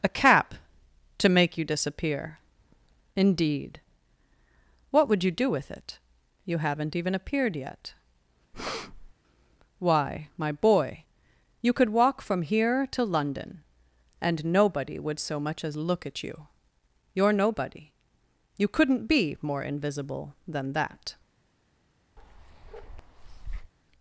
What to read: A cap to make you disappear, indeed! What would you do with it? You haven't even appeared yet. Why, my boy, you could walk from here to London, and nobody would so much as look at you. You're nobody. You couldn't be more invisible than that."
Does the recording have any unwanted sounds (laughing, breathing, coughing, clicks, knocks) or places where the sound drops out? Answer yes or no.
yes